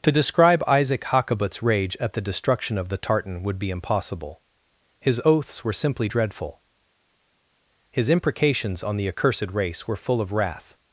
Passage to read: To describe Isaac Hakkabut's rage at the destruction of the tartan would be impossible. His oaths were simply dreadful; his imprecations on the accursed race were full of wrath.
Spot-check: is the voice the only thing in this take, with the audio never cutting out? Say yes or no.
yes